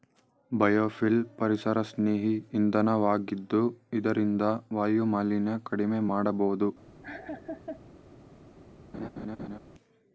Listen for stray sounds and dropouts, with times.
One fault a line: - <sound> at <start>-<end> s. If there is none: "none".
- laugh at 7.0-7.8 s
- laugh at 8.9-9.6 s